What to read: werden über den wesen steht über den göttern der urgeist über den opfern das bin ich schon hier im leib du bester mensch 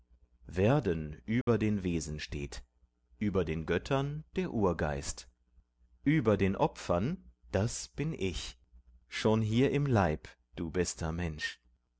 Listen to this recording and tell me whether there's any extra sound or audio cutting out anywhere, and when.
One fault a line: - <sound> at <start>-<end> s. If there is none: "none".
- dropout at 1.4-1.5 s